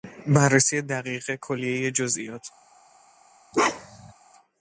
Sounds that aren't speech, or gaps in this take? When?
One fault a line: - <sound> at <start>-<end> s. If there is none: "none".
- bark at 3.5-4.1 s